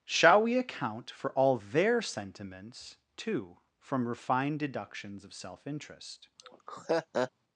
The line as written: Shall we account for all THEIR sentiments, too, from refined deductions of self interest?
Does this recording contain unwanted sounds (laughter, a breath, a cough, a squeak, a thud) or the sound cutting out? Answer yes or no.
yes